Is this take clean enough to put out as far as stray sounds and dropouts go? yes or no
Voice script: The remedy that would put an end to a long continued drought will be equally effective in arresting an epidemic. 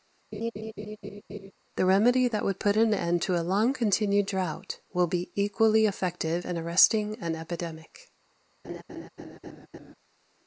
no